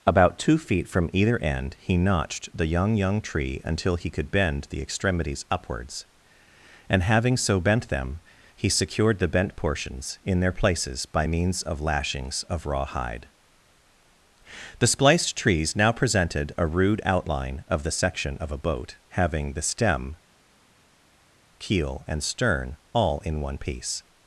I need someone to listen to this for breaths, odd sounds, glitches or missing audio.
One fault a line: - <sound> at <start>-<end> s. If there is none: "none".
none